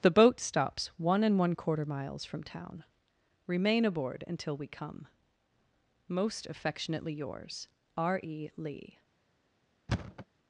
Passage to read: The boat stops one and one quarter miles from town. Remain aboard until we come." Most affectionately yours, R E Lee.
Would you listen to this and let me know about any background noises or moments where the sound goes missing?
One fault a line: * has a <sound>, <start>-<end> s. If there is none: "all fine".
* has a thud, 9.9-10.3 s